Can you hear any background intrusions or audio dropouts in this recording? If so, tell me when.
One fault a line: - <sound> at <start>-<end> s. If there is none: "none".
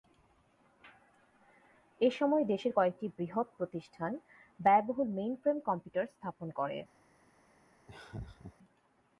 - laugh at 7.9-8.5 s